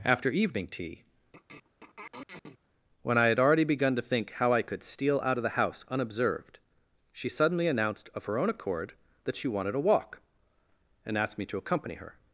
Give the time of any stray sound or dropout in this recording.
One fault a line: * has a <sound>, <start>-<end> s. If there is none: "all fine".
* has a throat clearing, 1.3-2.6 s